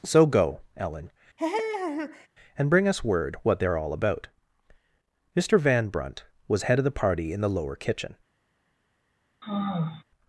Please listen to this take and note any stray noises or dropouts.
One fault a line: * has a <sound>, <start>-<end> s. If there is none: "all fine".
* has a laugh, 1.4-2.3 s
* has a sigh, 9.4-10.0 s